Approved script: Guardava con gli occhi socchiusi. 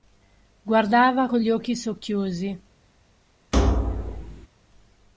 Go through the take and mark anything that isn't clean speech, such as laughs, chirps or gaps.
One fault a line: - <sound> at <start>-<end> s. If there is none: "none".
- thud at 3.5-4.5 s